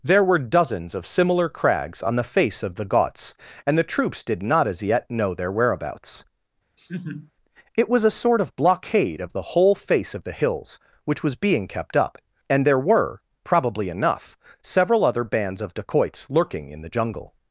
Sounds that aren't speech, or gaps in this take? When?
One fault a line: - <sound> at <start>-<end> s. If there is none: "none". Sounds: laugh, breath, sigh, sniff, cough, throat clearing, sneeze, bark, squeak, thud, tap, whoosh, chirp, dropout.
- laugh at 6.8-7.3 s